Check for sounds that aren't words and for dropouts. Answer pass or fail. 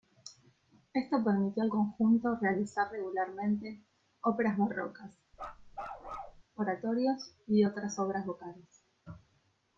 fail